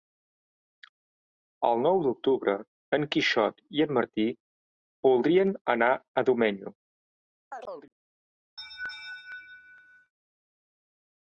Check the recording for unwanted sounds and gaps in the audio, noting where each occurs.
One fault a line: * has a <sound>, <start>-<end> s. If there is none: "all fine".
* has a chirp, 7.5-7.9 s
* has a laugh, 8.6-10.1 s